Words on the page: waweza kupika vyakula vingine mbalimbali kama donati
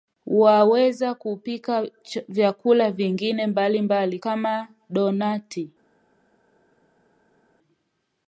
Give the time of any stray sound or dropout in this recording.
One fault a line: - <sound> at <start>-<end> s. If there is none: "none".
none